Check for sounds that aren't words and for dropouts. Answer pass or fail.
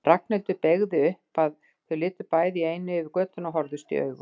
pass